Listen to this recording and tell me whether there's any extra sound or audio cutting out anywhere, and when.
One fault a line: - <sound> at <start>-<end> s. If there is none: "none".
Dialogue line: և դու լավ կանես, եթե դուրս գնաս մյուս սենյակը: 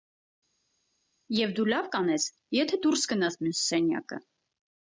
none